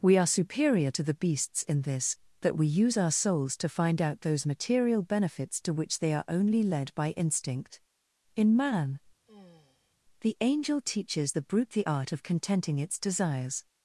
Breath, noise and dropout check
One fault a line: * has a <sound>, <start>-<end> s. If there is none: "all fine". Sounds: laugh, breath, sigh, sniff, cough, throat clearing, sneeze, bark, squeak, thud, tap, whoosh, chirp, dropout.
* has a sigh, 9.3-10.0 s